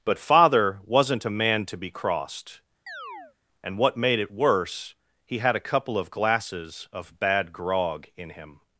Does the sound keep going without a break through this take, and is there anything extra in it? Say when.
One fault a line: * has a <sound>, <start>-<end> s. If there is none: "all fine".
* has a chirp, 2.9-3.4 s